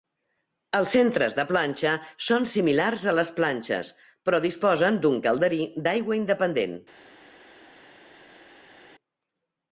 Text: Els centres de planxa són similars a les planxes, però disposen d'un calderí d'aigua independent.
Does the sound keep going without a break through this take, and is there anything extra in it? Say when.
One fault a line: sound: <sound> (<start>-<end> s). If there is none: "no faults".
no faults